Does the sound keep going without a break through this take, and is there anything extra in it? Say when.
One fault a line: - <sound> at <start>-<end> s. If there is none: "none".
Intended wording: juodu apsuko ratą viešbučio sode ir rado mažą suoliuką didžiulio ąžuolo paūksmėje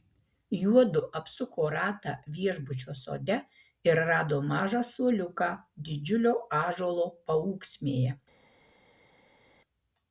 none